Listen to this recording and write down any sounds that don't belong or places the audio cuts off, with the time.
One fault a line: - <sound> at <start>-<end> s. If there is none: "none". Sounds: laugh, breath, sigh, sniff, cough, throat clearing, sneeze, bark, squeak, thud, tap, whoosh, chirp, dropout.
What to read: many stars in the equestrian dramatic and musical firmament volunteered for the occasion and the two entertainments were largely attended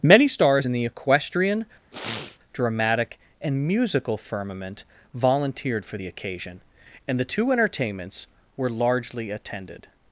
- sniff at 1.9-2.4 s